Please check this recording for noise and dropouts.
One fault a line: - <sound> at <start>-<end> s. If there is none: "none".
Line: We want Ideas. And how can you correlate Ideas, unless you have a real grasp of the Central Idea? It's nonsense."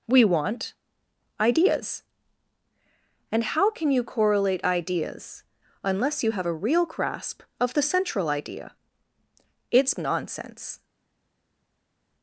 none